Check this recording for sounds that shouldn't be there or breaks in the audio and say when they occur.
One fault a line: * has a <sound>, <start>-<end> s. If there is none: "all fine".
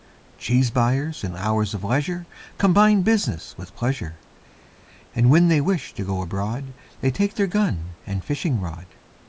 all fine